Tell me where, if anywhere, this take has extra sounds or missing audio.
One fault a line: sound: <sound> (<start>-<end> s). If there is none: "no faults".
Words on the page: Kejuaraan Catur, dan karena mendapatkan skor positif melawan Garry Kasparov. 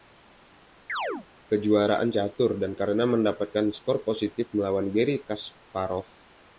sound: chirp (0.9-1.3 s)